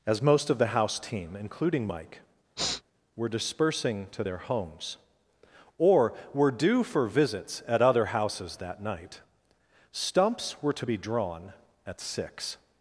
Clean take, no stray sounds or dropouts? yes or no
no